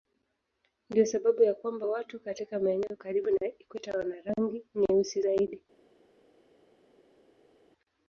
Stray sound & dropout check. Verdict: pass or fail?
pass